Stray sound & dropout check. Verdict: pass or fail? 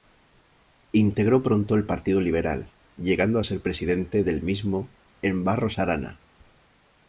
pass